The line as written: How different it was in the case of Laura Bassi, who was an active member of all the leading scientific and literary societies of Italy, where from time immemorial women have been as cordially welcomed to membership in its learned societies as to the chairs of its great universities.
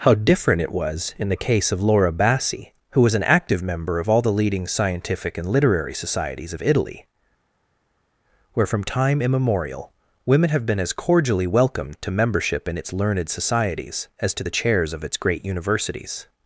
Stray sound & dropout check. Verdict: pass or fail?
pass